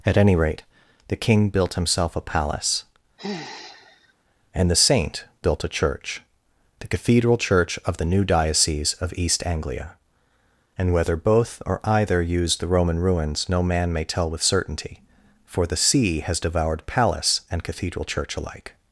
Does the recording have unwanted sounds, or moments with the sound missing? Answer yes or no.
yes